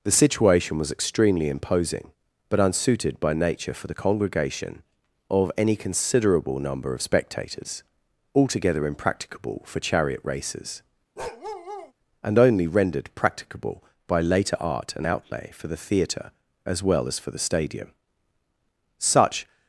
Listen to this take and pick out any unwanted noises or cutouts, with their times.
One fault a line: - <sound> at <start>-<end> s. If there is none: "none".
- bark at 11.2-11.9 s